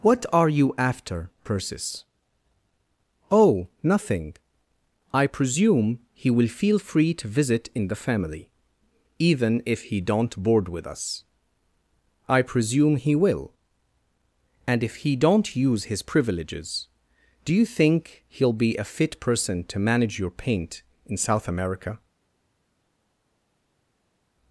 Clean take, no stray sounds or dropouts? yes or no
yes